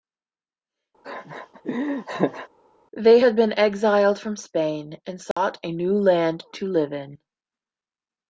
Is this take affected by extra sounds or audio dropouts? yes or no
yes